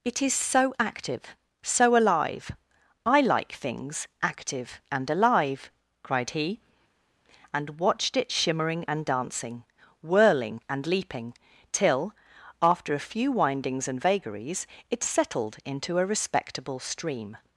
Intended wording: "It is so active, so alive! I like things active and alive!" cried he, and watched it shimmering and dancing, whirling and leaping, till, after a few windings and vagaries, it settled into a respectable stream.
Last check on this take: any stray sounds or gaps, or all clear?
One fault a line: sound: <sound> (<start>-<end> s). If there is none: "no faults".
no faults